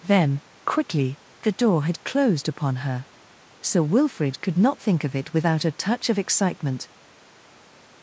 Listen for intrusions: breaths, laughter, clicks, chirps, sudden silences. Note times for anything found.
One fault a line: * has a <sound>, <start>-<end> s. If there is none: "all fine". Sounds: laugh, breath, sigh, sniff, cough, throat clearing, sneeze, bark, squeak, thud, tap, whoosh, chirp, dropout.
all fine